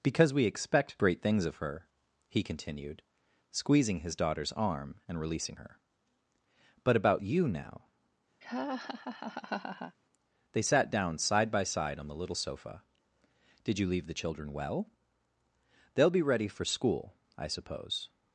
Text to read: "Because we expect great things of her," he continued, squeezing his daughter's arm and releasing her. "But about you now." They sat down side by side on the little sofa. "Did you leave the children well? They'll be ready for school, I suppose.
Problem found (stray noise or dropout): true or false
true